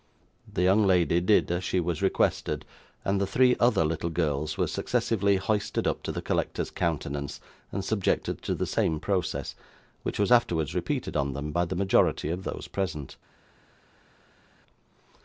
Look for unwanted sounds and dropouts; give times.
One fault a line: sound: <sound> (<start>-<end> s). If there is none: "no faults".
no faults